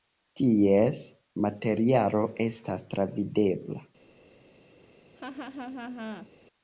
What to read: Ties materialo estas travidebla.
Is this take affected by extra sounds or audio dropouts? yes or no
yes